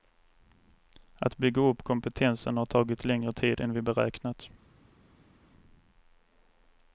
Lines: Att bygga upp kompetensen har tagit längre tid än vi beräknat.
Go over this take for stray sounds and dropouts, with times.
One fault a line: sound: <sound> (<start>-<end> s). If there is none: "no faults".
no faults